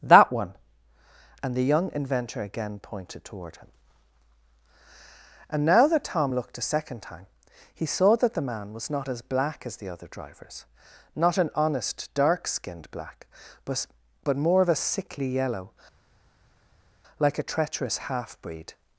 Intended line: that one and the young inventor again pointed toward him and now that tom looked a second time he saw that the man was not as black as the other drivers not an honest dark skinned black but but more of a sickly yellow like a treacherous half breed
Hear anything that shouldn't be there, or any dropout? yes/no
no